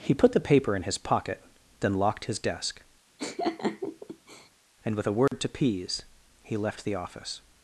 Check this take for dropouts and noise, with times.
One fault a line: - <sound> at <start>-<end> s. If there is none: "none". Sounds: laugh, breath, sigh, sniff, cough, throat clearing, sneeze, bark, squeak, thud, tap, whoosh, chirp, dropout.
- laugh at 3.2-4.5 s
- dropout at 5.3-5.3 s